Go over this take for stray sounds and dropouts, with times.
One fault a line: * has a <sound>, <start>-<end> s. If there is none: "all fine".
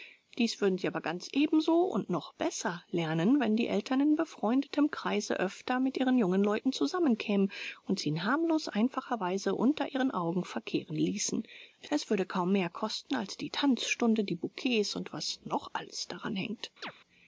* has a chirp, 16.8-16.9 s